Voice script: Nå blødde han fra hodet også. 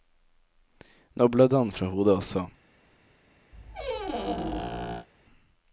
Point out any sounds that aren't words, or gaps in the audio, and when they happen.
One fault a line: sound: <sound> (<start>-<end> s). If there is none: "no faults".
sound: squeak (3.5-5.1 s)